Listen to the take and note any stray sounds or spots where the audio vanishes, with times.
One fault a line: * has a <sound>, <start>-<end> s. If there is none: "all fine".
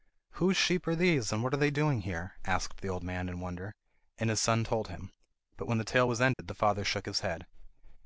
* has a dropout, 6.3-6.4 s